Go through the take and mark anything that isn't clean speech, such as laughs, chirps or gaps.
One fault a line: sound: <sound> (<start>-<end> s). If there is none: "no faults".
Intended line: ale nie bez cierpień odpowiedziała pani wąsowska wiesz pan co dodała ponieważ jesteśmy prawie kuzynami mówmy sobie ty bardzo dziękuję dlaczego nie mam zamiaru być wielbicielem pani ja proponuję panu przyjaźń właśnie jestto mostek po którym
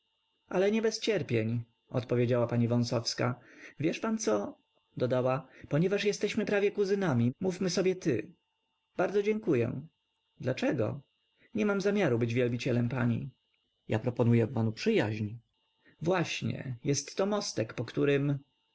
no faults